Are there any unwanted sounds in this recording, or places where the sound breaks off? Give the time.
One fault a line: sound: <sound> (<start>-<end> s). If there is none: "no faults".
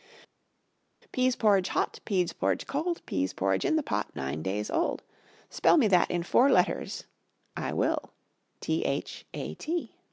no faults